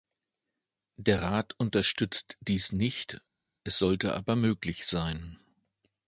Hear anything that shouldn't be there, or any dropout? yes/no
no